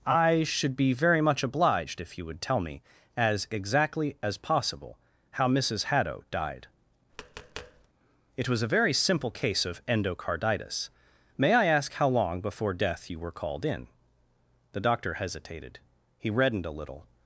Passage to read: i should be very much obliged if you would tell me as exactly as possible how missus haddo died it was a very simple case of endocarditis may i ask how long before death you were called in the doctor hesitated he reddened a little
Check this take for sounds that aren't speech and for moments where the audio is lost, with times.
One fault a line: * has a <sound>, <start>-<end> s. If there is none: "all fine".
* has a tap, 7.1-7.9 s